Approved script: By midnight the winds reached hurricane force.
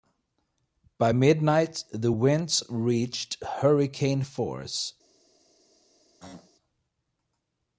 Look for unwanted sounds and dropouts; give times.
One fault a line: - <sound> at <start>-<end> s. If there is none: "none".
- throat clearing at 6.2-6.5 s